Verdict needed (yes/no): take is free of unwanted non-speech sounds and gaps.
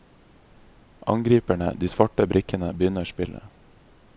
yes